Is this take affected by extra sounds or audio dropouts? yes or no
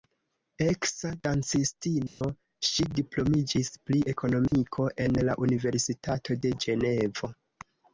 yes